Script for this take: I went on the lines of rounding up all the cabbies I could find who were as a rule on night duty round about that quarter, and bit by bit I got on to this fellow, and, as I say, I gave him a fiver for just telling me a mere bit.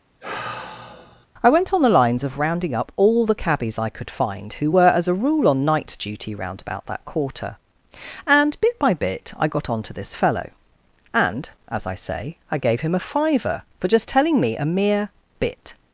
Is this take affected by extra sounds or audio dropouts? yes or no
yes